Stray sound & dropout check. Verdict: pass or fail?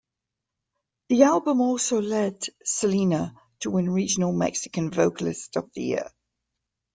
pass